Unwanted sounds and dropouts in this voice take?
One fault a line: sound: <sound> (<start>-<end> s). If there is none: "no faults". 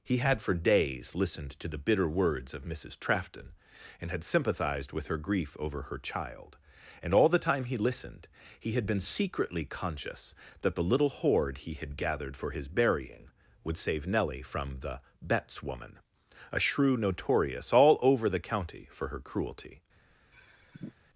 sound: sigh (20.3-20.9 s)